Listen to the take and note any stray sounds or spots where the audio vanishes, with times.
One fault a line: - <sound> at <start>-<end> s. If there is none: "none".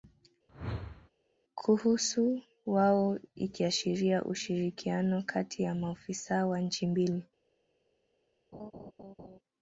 - whoosh at 0.5-1.1 s
- laugh at 8.5-9.4 s